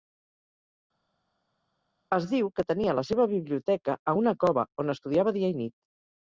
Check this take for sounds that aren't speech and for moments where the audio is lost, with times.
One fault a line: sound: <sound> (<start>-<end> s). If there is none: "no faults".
no faults